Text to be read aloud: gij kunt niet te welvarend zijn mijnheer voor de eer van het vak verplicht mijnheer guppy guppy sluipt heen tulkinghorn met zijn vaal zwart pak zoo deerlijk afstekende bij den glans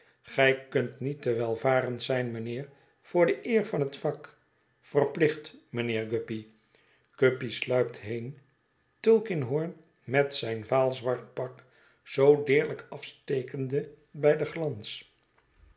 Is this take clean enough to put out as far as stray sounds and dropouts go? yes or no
yes